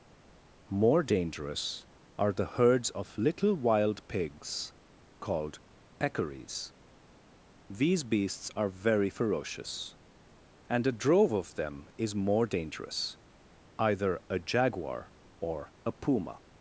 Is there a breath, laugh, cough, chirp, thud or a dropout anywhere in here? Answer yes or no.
no